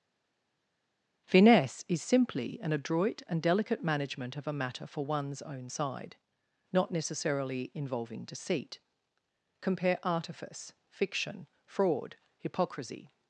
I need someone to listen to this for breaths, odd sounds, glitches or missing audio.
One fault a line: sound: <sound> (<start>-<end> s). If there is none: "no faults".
no faults